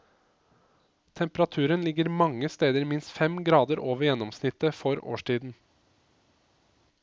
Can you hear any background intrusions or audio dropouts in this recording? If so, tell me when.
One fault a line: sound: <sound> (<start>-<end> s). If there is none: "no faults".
no faults